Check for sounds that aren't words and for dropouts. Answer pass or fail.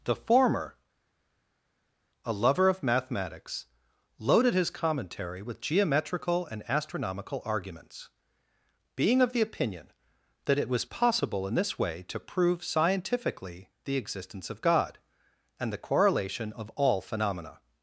pass